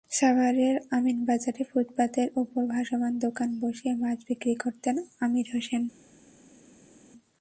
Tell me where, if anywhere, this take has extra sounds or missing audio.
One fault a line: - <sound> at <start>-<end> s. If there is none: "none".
none